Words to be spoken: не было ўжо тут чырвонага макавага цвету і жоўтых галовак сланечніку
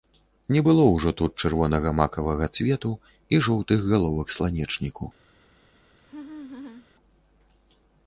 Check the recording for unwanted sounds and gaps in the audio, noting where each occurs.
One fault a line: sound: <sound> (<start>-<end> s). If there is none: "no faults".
sound: laugh (6.0-6.9 s)